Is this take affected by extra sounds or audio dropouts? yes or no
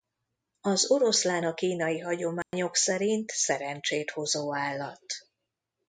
yes